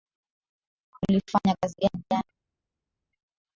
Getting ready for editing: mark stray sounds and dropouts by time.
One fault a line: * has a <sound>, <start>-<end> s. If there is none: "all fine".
all fine